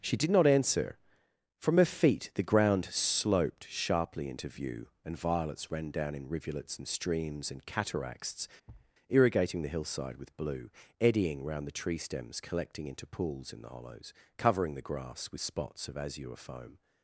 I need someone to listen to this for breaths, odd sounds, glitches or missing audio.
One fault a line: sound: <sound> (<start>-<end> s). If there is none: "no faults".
sound: thud (8.7-8.9 s)